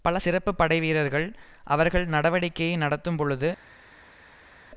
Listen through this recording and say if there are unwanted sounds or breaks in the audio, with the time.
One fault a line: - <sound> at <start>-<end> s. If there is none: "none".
none